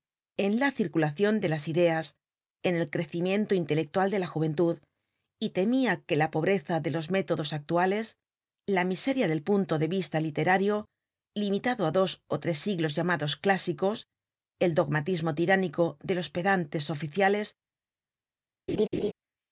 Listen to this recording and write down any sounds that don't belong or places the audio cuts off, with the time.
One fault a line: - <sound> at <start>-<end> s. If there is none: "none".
- laugh at 18.7-19.1 s